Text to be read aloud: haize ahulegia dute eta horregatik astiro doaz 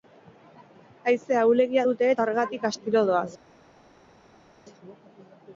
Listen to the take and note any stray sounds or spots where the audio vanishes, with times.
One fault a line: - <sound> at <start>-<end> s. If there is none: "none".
none